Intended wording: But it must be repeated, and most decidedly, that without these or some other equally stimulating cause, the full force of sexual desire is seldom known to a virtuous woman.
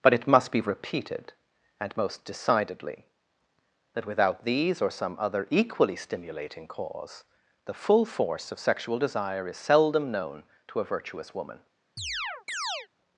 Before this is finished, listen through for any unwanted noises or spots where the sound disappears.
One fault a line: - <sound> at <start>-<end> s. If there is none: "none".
- chirp at 12.0-12.9 s